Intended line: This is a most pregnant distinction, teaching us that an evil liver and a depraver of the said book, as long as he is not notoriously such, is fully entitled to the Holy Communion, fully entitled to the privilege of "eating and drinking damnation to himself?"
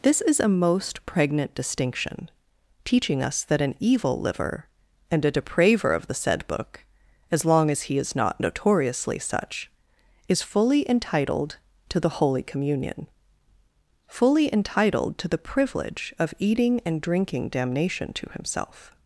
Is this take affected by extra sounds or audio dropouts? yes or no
no